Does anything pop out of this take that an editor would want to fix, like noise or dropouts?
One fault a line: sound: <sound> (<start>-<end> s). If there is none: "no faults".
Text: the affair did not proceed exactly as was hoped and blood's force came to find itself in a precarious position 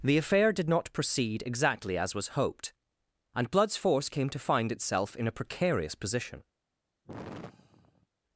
sound: sigh (7.0-8.1 s)